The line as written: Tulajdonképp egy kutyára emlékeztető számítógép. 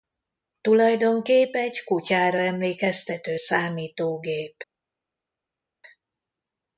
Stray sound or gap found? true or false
false